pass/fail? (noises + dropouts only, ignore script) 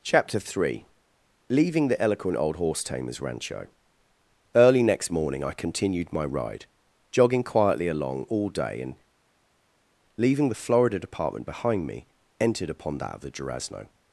pass